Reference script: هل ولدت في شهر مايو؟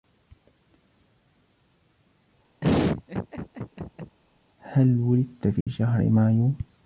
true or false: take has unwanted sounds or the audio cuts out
true